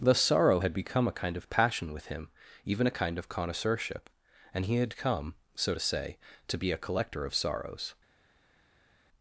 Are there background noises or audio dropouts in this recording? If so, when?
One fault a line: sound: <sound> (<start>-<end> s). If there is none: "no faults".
no faults